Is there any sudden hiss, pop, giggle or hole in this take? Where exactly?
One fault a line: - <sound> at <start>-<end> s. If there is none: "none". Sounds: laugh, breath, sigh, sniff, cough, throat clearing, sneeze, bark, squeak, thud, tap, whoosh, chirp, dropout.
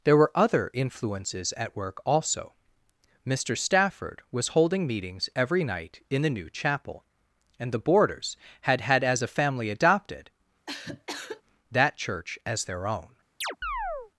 - cough at 10.7-11.4 s
- chirp at 13.4-14.1 s